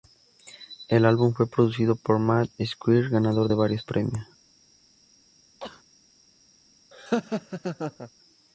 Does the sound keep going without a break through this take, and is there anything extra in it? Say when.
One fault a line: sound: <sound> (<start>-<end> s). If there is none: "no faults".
sound: sneeze (5.6-5.8 s)
sound: laugh (6.9-8.1 s)